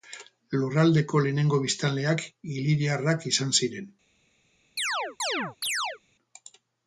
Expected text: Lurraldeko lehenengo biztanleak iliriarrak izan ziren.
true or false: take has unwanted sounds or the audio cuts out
true